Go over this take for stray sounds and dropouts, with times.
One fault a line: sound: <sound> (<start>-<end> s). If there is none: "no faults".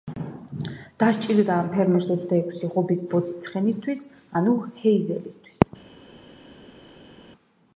no faults